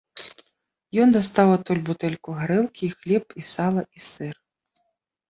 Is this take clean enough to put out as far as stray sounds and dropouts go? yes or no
yes